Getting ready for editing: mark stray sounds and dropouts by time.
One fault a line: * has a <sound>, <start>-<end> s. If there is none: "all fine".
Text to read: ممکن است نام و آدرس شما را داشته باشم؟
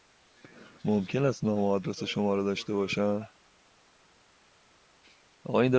all fine